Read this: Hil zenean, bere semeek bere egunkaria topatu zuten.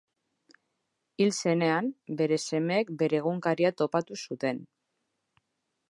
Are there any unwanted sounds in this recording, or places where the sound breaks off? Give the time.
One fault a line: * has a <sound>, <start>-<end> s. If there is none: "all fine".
all fine